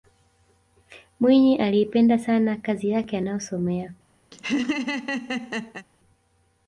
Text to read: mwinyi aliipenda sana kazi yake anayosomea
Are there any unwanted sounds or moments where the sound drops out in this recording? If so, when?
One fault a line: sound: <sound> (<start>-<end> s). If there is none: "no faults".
sound: laugh (4.3-5.9 s)